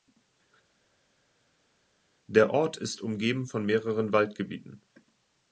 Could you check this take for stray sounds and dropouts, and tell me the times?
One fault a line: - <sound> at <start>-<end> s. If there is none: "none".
none